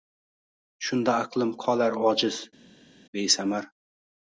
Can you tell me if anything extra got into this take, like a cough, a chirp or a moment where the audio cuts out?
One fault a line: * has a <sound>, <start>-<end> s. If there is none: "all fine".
all fine